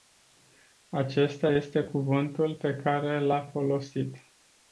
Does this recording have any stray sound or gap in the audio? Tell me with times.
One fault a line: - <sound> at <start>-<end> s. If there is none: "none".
none